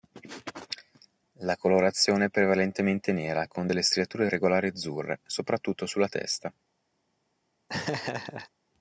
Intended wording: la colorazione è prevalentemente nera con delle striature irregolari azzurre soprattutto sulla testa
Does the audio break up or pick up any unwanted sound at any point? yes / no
yes